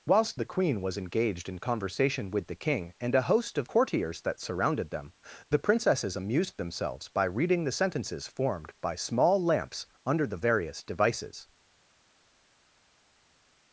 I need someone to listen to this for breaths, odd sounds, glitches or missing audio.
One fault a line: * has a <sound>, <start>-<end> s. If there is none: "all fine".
all fine